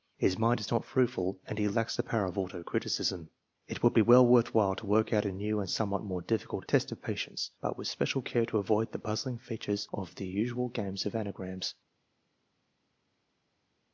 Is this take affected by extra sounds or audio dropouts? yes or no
no